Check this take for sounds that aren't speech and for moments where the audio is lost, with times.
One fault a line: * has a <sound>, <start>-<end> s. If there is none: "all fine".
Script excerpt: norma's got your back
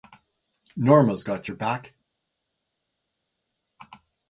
all fine